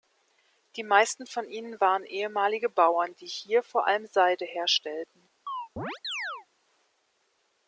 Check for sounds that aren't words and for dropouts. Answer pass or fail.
fail